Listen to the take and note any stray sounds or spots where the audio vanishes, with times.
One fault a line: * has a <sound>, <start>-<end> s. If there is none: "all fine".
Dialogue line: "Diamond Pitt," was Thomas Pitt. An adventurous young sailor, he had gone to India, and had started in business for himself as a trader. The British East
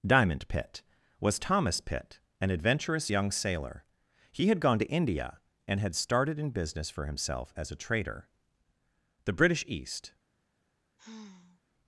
* has a sigh, 11.0-11.6 s